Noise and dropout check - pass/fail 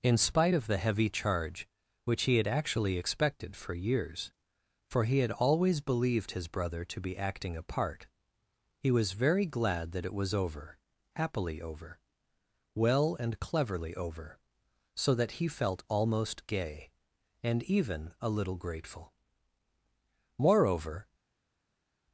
pass